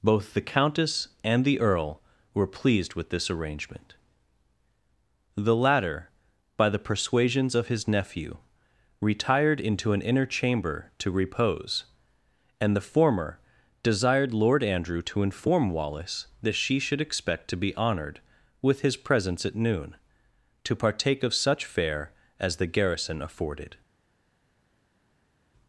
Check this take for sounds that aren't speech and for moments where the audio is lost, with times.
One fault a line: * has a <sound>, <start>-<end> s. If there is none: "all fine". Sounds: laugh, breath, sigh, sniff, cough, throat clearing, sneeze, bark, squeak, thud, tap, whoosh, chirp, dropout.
all fine